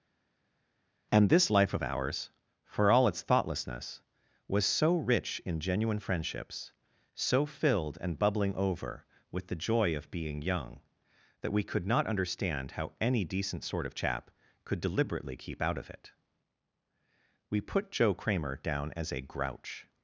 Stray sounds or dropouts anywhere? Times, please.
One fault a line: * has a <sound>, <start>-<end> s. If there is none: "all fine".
all fine